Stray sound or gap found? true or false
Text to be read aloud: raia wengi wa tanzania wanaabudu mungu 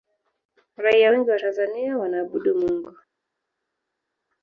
false